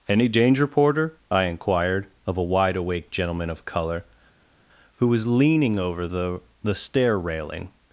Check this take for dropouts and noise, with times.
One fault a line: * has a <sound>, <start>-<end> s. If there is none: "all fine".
all fine